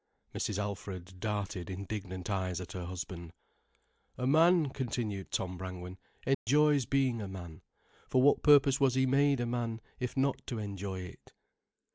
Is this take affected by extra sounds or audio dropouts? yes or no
yes